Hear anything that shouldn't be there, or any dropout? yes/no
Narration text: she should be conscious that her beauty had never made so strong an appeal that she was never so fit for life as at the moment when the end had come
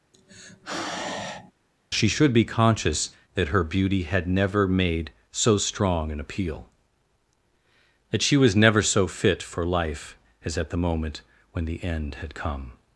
yes